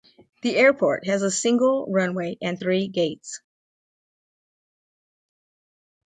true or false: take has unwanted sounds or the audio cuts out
false